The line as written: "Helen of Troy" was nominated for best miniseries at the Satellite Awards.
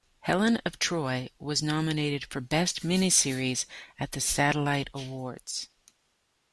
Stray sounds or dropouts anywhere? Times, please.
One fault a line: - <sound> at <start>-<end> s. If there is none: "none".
none